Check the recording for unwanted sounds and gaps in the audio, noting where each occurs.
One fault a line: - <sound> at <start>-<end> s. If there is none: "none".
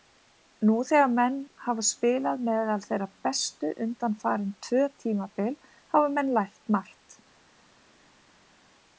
none